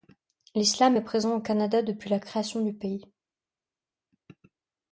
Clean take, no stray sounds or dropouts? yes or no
yes